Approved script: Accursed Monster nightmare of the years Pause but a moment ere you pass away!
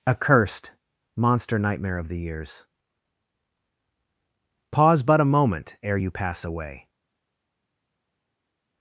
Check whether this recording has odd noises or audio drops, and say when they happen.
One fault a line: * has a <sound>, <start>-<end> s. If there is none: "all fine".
all fine